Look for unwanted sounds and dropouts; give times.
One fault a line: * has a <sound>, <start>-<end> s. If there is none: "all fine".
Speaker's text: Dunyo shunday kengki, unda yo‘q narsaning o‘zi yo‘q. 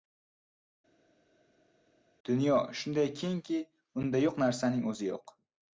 all fine